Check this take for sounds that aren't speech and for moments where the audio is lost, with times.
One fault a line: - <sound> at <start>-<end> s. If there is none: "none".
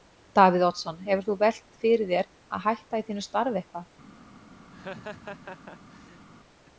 - laugh at 4.7-6.3 s